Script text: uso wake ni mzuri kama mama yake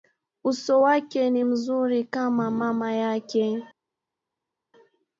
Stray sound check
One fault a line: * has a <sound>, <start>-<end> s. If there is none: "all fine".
all fine